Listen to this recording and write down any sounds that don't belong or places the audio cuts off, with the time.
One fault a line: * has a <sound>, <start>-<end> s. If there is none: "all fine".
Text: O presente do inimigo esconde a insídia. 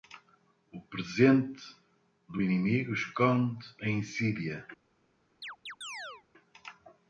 * has a chirp, 5.4-6.2 s